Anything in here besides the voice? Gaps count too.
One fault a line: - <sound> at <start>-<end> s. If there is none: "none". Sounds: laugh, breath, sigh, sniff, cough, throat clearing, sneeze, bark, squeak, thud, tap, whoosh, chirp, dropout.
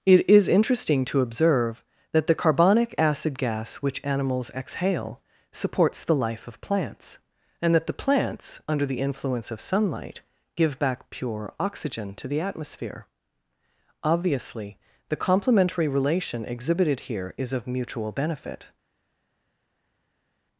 none